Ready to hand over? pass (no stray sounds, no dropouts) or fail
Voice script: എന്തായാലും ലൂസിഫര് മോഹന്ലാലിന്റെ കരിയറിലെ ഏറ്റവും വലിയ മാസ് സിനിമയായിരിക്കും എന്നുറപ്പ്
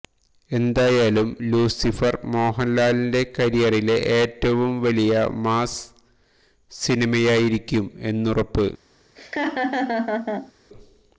fail